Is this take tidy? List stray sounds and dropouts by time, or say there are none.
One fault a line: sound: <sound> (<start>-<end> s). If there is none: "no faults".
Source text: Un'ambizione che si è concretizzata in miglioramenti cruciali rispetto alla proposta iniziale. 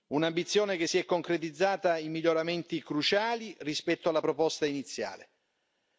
no faults